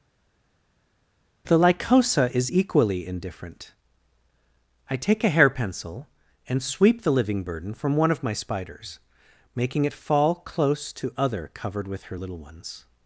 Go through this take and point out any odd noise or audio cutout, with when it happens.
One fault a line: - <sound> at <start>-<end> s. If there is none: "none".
none